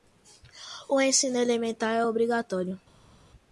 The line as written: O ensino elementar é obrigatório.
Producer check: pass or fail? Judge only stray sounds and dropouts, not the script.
pass